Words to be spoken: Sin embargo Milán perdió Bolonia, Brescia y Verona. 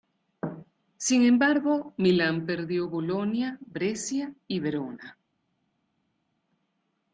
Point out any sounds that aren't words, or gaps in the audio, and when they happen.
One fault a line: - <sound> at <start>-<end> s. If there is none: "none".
none